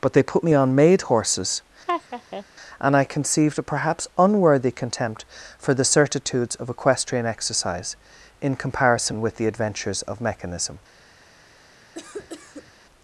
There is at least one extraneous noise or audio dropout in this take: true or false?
true